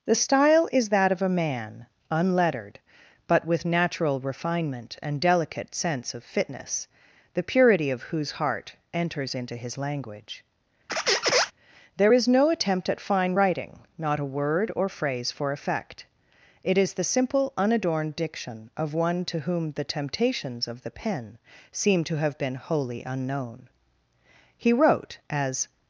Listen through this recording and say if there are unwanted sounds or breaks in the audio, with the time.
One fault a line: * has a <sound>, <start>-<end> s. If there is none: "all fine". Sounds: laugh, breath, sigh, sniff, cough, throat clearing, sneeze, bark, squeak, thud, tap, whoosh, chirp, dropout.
* has a squeak, 10.9-11.5 s